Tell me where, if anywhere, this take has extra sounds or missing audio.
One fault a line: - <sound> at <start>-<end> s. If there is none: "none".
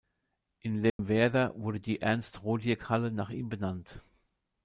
- dropout at 0.9-1.0 s